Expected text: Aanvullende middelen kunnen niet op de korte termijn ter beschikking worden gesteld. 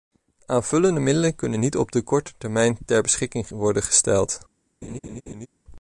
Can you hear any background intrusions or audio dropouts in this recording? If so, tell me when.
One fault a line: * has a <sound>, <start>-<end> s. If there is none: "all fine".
* has a laugh, 4.8-5.5 s